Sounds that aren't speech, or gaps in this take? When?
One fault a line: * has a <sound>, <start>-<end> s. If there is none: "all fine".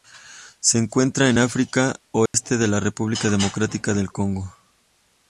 * has a dropout, 2.3-2.3 s